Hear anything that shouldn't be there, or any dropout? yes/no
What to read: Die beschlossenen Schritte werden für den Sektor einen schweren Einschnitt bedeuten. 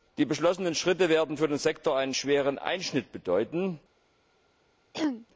yes